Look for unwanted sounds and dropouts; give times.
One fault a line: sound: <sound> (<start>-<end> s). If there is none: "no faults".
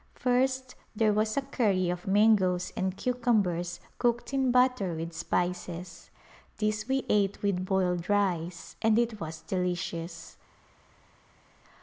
no faults